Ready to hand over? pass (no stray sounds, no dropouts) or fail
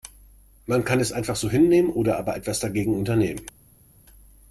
pass